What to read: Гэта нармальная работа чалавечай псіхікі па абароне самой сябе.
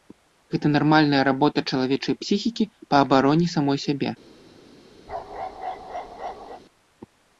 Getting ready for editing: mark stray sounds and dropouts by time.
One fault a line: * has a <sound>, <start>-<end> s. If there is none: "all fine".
* has a bark, 5.1-6.6 s